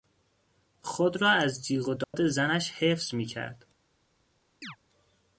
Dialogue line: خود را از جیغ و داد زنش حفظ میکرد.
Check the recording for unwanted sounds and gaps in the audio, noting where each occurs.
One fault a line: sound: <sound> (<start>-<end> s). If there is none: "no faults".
sound: dropout (2.0-2.1 s)
sound: chirp (4.6-4.8 s)